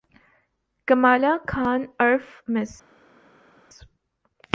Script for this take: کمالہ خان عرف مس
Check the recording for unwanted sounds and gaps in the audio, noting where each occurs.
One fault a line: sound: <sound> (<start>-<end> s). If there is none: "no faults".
no faults